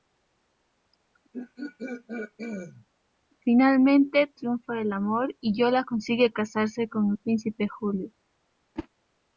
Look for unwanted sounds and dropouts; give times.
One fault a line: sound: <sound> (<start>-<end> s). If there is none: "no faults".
sound: throat clearing (1.3-2.9 s)
sound: whoosh (8.8-8.9 s)